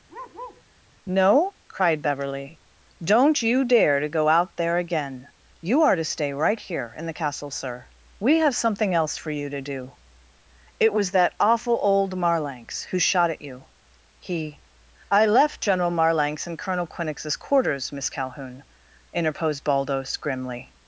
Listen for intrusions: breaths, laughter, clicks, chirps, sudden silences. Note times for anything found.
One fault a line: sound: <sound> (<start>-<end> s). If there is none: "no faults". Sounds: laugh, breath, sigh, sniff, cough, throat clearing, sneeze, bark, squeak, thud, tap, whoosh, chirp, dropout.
sound: bark (0.1-0.6 s)